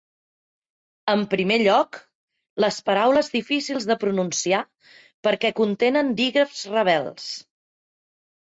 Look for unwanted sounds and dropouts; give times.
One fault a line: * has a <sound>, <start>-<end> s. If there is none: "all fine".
all fine